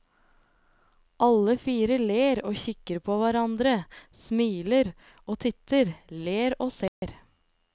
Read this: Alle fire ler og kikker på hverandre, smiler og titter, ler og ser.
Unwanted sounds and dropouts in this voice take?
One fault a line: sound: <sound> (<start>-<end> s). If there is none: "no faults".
sound: dropout (6.9-7.0 s)